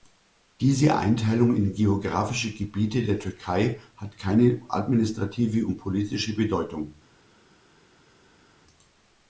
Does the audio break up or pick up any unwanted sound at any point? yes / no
no